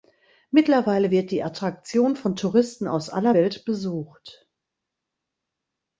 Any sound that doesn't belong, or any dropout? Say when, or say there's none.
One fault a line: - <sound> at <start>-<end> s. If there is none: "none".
none